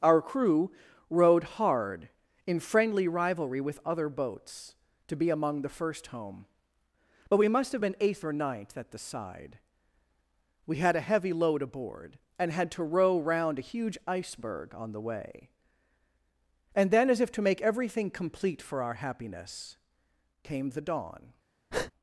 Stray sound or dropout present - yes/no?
yes